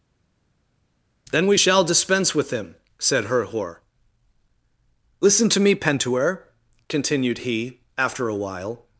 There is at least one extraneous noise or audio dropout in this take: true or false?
false